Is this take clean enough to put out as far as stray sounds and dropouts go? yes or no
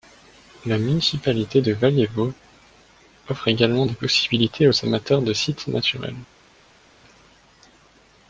yes